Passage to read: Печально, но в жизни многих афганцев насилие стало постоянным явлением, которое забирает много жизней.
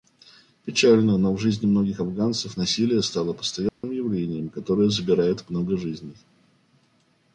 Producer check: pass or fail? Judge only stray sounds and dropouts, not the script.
fail